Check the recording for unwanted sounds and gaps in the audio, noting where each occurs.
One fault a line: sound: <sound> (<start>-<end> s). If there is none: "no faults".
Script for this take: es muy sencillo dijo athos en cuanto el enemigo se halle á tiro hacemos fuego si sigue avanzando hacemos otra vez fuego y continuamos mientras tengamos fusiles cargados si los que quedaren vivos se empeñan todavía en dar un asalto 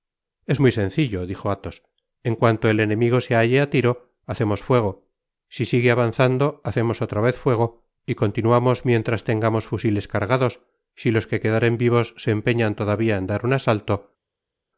no faults